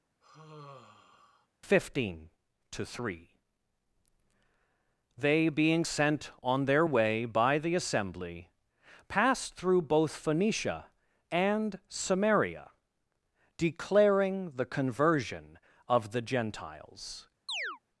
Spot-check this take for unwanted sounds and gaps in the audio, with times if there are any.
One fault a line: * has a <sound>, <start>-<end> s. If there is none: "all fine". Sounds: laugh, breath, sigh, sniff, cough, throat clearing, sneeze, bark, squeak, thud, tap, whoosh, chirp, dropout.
* has a sigh, 0.2-1.5 s
* has a chirp, 17.5-17.8 s